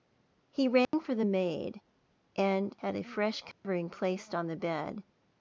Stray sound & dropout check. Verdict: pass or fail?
fail